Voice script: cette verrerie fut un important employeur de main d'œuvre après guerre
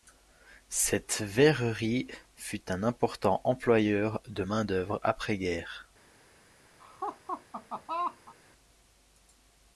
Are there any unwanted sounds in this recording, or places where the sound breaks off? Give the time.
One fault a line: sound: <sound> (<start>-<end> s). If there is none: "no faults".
sound: laugh (6.8-8.3 s)